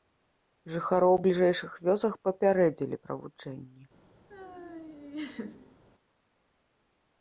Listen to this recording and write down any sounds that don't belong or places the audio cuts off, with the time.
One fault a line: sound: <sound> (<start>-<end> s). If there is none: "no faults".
sound: laugh (4.3-5.8 s)